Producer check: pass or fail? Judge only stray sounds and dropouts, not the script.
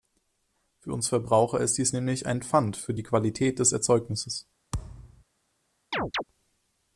fail